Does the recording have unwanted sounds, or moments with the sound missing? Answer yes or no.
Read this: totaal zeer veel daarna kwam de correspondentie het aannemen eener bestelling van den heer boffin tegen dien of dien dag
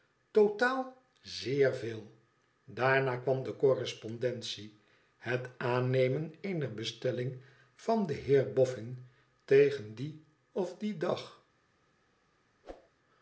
yes